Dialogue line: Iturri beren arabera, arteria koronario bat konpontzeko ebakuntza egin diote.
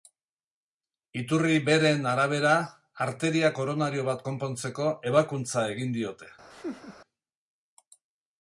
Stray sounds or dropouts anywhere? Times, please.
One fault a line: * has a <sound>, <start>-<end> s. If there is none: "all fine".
* has a laugh, 6.5-7.0 s